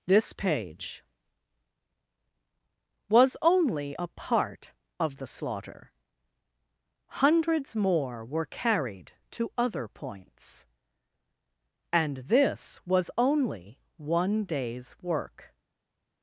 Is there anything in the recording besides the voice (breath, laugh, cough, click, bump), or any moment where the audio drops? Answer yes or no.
no